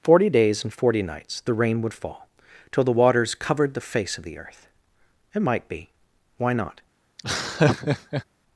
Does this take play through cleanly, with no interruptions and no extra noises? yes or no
no